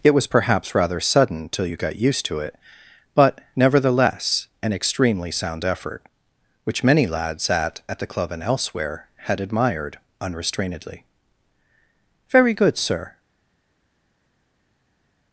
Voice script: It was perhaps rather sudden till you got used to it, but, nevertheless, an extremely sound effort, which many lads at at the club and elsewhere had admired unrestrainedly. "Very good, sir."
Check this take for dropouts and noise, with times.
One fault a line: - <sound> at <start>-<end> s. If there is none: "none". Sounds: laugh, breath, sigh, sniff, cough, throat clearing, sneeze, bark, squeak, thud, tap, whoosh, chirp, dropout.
none